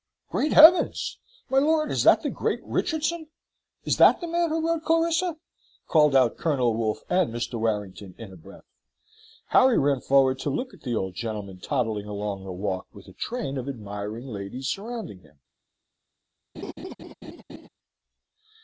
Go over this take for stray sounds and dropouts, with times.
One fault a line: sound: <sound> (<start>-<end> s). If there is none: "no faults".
sound: laugh (16.5-17.7 s)